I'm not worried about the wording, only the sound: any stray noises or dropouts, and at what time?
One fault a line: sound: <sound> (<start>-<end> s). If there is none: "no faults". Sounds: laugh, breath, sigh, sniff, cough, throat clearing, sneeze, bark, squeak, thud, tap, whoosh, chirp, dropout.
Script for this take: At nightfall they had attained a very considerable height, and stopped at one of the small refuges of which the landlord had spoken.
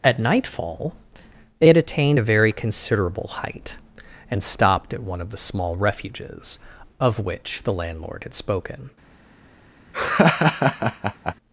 sound: laugh (9.9-11.3 s)